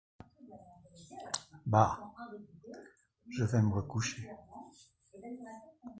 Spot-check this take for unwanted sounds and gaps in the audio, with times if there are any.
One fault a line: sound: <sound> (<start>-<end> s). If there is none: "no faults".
no faults